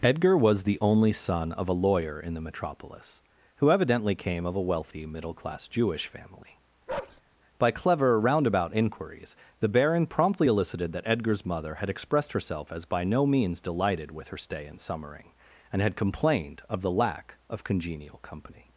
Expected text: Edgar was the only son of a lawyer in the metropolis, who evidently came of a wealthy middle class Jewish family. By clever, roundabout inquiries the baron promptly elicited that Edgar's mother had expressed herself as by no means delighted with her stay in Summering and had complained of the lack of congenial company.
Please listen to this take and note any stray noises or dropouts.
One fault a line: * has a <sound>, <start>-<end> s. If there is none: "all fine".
* has a bark, 6.9-7.2 s